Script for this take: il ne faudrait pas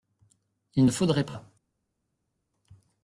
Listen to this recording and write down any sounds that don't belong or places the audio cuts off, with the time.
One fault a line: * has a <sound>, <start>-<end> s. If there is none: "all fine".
all fine